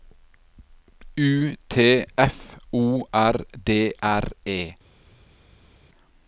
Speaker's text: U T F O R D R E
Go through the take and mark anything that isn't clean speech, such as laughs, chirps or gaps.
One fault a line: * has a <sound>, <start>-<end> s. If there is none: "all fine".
all fine